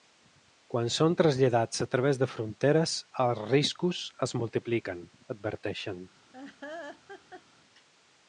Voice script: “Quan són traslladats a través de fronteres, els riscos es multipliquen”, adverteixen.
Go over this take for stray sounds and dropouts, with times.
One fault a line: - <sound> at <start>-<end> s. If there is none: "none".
- laugh at 6.3-7.4 s